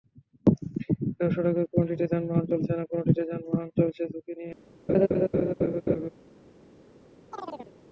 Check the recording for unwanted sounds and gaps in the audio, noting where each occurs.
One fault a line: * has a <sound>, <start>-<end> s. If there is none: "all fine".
* has a laugh, 4.9-6.1 s
* has a chirp, 7.3-7.7 s